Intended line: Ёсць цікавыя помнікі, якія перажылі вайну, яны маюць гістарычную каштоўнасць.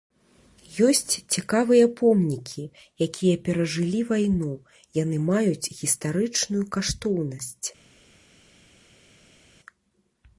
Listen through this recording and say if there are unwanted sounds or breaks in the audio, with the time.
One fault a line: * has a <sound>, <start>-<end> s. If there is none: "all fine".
all fine